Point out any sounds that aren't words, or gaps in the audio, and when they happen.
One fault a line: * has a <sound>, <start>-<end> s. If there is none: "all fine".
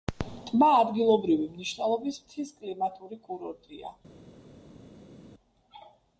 all fine